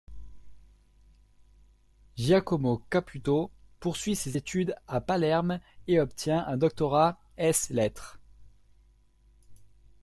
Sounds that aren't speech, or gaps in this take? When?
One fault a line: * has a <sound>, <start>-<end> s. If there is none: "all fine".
all fine